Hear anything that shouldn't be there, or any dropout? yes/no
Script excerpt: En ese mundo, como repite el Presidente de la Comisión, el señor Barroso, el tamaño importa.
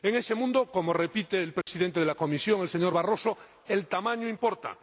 yes